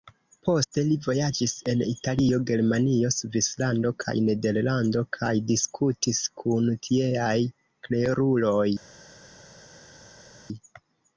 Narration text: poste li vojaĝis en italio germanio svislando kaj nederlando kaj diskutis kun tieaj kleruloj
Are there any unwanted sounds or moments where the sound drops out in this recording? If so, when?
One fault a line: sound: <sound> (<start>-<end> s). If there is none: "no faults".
no faults